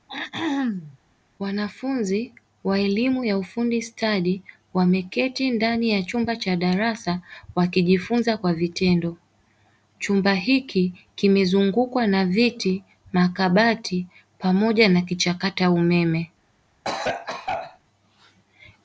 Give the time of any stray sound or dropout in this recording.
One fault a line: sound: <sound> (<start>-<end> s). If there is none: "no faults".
sound: throat clearing (0.1-1.0 s)
sound: cough (16.8-17.8 s)